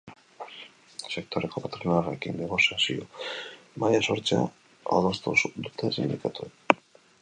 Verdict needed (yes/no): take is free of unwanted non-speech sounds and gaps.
yes